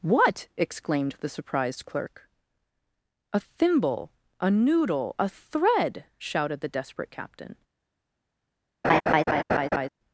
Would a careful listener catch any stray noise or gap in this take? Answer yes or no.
yes